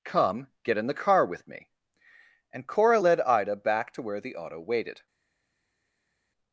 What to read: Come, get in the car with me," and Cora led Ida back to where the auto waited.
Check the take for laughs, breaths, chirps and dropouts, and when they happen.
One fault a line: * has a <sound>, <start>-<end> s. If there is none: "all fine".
all fine